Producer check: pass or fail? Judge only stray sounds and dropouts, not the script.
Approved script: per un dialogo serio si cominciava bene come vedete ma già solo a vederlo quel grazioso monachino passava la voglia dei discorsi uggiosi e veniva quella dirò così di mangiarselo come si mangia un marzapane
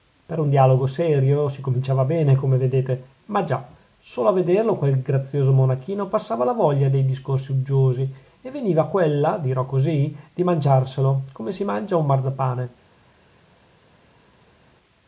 pass